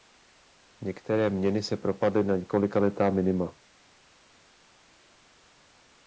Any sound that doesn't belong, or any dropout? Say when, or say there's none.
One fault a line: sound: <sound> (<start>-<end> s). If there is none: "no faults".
no faults